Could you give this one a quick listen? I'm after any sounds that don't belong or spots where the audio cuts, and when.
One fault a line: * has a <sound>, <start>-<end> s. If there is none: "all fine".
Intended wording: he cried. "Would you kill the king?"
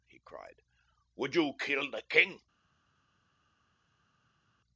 all fine